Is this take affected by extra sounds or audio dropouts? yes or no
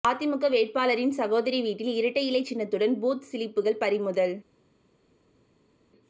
no